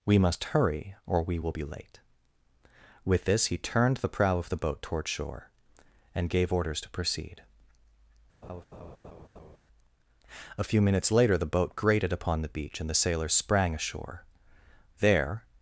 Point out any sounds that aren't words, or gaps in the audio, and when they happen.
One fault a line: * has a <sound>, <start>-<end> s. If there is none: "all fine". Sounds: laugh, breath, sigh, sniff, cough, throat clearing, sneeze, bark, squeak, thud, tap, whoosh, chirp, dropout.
* has a laugh, 8.4-9.6 s